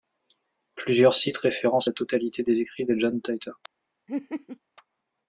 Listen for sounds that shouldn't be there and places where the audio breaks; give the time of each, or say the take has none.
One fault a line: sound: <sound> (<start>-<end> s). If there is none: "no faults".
sound: laugh (4.1-4.6 s)